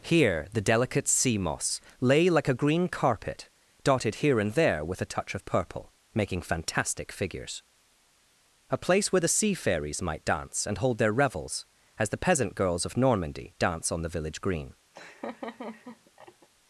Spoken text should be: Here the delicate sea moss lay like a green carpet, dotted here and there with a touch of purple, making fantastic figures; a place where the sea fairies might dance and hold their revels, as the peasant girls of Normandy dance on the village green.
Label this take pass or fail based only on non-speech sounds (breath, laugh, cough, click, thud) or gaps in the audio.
fail